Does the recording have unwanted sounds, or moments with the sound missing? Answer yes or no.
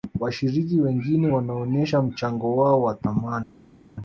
no